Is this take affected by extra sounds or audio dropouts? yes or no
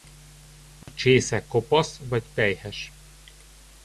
yes